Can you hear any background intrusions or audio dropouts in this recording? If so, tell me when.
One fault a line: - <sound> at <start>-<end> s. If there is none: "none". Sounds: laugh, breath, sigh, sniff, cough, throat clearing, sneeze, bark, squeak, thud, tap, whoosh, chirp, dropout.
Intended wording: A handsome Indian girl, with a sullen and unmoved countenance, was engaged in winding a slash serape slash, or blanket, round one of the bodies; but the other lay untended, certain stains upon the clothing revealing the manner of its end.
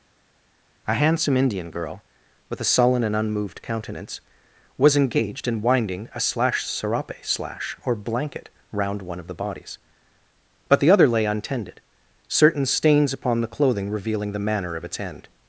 none